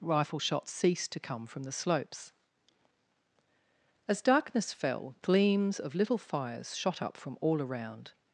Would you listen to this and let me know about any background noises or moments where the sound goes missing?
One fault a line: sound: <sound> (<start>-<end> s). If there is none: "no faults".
no faults